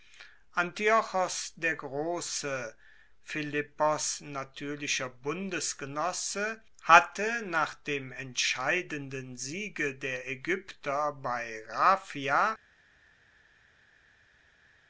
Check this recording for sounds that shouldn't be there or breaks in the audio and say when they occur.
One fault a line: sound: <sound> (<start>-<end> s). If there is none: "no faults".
no faults